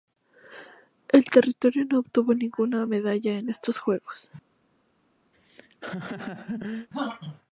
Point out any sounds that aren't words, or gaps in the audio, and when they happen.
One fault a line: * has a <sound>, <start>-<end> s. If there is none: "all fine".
* has a laugh, 5.3-6.9 s